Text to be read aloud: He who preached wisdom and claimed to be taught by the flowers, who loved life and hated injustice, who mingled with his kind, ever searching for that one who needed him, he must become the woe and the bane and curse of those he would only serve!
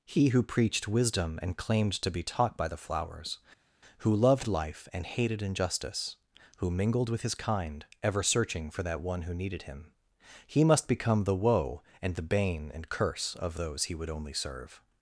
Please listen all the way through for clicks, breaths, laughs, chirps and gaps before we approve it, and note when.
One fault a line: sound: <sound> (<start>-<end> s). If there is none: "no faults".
no faults